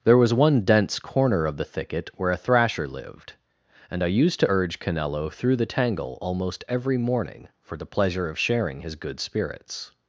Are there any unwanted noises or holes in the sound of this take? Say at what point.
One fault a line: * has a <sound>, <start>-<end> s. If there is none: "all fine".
all fine